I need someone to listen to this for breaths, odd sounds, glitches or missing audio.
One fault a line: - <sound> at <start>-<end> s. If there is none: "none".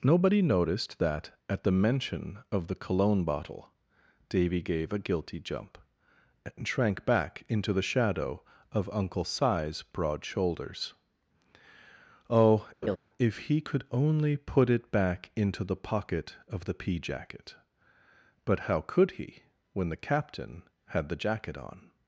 - laugh at 12.8-13.0 s